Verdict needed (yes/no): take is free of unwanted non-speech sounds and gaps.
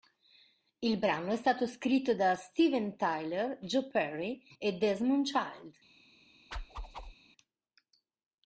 no